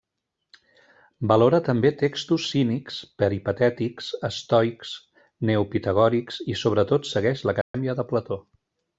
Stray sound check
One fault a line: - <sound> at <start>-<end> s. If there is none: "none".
- dropout at 7.6-7.7 s